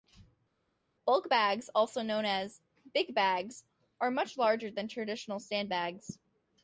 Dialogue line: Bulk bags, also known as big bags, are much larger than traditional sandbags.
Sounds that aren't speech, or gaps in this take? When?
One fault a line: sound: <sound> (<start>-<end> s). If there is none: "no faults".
no faults